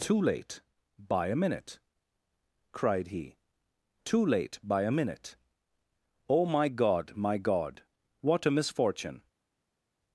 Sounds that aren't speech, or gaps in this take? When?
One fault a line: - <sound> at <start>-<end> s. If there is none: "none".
none